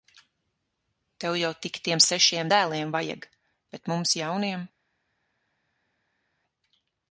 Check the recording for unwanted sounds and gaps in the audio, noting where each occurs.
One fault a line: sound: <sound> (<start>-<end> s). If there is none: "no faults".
no faults